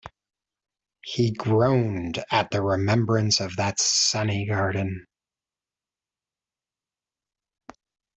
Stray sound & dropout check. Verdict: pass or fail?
pass